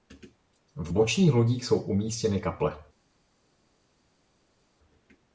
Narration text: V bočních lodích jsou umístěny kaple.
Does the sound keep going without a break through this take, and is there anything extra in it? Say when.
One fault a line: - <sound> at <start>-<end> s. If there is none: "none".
none